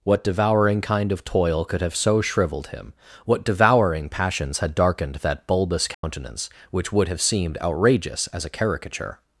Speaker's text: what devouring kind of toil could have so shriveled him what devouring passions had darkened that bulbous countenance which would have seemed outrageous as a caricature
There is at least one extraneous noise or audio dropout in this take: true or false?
true